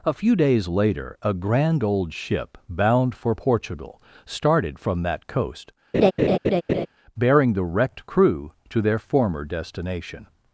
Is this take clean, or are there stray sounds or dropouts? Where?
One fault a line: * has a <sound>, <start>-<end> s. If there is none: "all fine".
* has a laugh, 5.9-6.9 s